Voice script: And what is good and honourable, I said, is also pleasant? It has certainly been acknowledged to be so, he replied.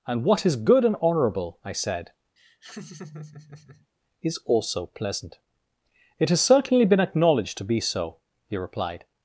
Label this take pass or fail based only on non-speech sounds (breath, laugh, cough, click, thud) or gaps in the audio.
fail